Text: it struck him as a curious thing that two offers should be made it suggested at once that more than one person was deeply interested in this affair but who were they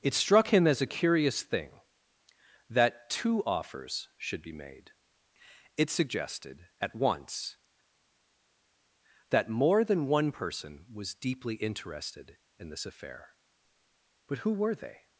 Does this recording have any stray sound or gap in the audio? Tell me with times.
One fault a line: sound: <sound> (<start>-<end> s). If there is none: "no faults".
no faults